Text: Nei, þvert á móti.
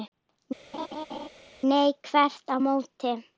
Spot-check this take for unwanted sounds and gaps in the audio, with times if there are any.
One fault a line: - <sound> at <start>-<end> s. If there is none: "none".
- laugh at 0.7-1.3 s